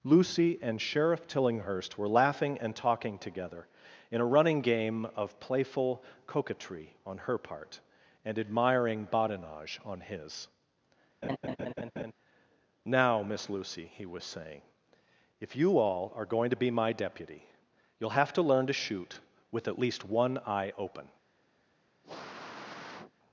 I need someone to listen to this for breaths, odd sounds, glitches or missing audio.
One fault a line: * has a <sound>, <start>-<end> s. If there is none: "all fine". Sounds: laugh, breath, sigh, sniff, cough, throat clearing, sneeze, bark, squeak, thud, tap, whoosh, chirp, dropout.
* has a laugh, 11.2-12.1 s
* has a sniff, 22.0-23.1 s